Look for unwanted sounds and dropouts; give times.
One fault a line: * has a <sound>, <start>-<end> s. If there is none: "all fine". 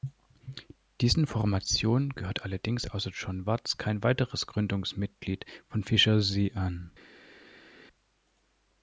all fine